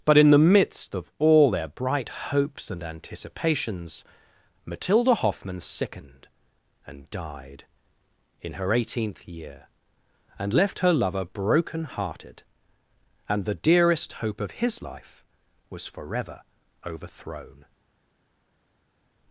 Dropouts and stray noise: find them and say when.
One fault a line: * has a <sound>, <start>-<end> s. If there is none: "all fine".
all fine